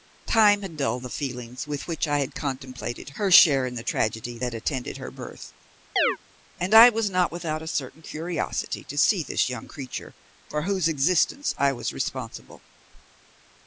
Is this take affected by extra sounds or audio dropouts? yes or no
yes